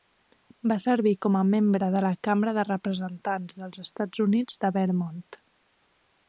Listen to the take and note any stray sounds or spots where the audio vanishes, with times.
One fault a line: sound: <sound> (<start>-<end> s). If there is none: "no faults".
no faults